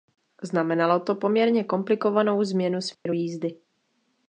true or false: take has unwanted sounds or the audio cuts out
true